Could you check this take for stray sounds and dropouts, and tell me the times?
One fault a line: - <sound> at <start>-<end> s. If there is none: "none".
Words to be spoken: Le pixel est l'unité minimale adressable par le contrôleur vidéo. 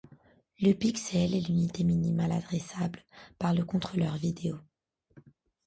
none